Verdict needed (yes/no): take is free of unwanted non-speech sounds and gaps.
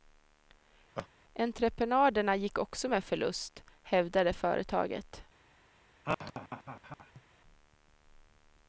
no